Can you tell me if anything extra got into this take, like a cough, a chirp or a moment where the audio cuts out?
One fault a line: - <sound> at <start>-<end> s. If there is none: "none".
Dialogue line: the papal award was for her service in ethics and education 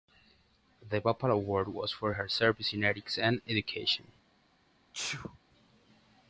- sneeze at 4.9-5.4 s